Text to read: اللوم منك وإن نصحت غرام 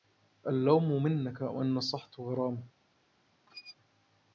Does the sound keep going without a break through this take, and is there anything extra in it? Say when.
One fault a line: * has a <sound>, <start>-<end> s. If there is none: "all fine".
* has a squeak, 3.5-3.8 s